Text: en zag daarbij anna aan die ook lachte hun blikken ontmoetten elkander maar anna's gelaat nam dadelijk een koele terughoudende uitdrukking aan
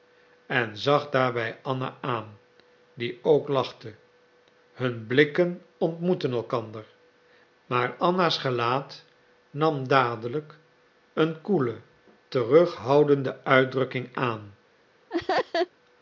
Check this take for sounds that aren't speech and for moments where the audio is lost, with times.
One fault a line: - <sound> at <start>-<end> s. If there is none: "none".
- laugh at 15.1-15.7 s